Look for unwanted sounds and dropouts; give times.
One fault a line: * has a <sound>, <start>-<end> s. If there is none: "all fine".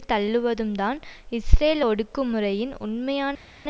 all fine